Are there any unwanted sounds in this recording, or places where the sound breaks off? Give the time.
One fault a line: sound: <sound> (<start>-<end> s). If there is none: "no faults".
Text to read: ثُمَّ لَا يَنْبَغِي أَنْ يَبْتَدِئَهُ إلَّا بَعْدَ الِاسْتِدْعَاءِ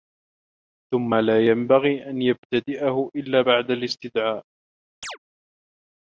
sound: chirp (5.0-5.2 s)